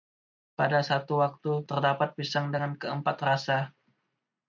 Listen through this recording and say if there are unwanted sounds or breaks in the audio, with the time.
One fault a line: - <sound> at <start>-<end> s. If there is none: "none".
none